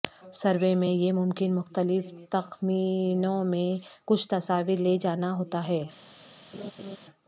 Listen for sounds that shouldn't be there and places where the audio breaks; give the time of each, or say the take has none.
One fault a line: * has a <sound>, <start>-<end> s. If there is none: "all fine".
* has a laugh, 6.5-7.0 s